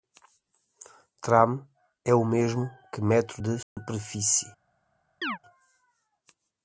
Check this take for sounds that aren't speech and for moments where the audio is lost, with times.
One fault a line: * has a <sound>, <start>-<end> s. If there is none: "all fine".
* has a dropout, 3.6-3.8 s
* has a chirp, 5.2-5.4 s